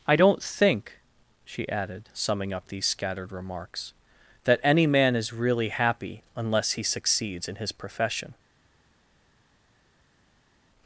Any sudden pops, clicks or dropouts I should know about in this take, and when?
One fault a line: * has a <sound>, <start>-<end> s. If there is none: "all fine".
all fine